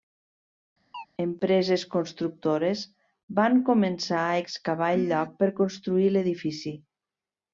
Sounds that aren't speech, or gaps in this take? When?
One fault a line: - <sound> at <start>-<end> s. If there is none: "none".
- chirp at 0.9-1.1 s